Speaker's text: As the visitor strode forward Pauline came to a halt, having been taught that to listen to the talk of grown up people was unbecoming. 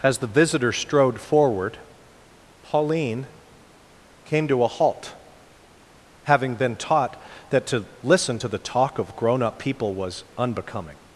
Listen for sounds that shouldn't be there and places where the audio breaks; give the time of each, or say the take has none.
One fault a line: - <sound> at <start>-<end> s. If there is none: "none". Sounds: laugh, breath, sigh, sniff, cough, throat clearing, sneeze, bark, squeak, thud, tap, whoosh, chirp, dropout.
none